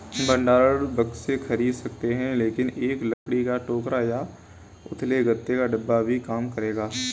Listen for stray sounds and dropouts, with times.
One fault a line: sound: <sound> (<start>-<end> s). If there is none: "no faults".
sound: dropout (3.1-3.3 s)